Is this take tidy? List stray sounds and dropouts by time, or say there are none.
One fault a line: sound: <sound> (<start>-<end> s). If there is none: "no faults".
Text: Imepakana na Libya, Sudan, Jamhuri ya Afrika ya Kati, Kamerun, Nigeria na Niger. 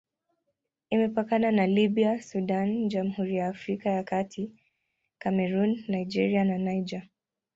no faults